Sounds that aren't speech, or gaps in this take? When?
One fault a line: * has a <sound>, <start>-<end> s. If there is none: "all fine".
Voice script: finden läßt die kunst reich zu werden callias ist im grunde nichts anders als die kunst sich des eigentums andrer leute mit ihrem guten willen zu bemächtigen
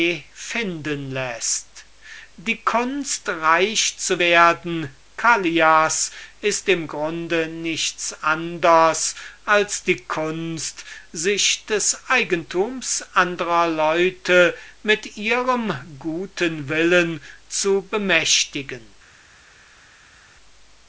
all fine